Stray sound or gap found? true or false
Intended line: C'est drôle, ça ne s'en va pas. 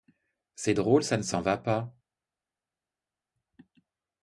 false